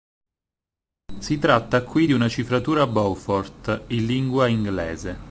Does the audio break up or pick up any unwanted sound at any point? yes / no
no